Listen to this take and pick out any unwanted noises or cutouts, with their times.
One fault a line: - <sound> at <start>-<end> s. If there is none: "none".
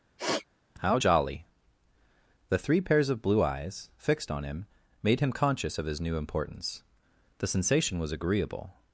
- sniff at 0.2-0.5 s